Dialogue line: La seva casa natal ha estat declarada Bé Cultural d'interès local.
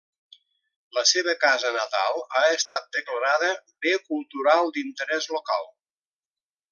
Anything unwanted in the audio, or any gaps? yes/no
yes